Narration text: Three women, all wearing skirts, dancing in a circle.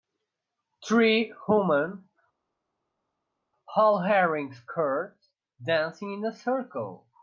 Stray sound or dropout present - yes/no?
no